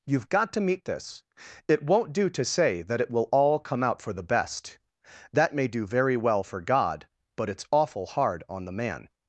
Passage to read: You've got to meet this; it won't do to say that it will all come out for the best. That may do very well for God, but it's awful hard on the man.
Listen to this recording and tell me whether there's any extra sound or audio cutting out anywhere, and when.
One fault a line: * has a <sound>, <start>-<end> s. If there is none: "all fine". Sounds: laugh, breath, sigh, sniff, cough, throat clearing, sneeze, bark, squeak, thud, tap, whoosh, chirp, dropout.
all fine